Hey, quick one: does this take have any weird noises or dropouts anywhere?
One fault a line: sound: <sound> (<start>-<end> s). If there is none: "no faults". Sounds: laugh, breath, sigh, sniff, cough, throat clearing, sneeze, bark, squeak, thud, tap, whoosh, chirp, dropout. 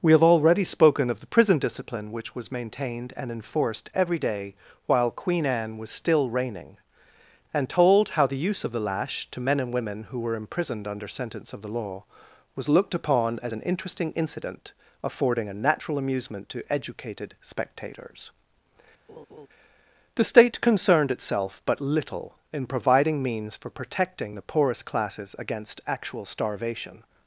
sound: laugh (19.1-19.5 s)